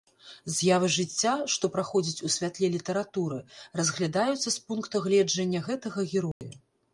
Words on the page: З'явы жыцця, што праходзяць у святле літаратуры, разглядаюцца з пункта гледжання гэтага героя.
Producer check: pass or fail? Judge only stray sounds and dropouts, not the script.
fail